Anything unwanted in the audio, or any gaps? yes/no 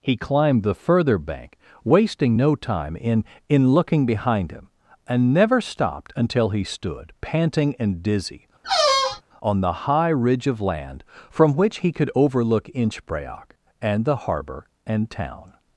yes